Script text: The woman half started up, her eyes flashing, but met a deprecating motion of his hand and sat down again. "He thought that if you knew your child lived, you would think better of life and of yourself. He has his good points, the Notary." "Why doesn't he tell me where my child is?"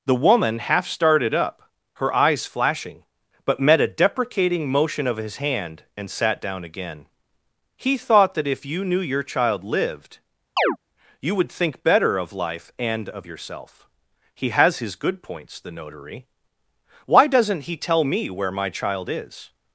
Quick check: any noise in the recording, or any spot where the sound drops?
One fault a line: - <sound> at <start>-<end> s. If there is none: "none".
- chirp at 10.6-10.8 s